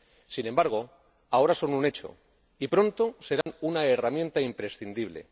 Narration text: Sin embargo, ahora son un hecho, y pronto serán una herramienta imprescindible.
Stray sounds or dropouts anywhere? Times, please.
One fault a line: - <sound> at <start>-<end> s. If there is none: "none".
- dropout at 3.4-3.5 s